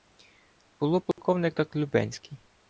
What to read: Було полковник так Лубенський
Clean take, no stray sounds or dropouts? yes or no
no